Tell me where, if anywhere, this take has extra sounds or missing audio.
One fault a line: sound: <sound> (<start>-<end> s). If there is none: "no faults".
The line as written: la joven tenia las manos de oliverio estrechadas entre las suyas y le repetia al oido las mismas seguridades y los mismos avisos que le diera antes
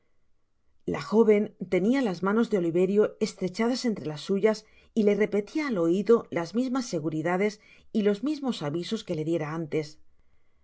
no faults